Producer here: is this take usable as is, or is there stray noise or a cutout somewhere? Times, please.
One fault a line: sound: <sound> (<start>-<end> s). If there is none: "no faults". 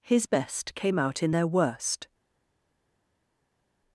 no faults